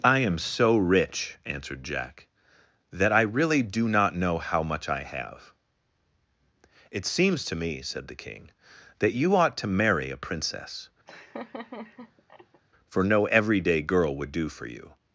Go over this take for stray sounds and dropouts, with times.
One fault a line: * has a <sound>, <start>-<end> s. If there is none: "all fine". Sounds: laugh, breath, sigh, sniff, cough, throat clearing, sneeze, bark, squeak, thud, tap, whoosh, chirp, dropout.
* has a laugh, 11.1-12.6 s